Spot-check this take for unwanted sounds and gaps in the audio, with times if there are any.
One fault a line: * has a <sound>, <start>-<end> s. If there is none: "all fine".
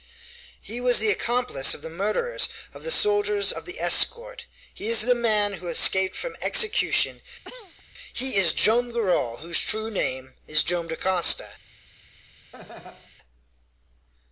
* has a cough, 7.4-7.8 s
* has a laugh, 12.5-13.1 s